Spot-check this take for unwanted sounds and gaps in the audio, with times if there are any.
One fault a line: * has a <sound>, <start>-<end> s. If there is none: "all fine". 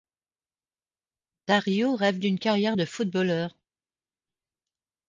all fine